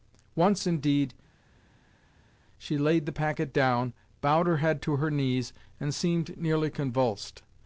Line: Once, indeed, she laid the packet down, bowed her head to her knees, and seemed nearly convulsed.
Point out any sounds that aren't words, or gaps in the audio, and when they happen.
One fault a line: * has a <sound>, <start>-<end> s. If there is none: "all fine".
all fine